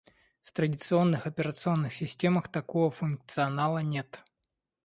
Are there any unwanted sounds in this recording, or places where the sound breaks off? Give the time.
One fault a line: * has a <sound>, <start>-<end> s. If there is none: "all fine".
all fine